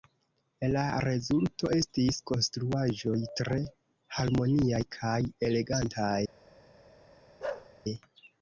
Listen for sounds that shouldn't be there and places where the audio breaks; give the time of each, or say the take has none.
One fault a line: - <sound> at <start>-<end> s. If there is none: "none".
- bark at 7.4-7.7 s